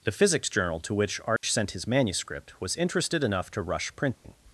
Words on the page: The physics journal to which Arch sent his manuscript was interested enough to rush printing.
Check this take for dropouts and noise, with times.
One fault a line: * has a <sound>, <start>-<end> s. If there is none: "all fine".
* has a dropout, 1.4-1.4 s
* has a dropout, 4.1-4.2 s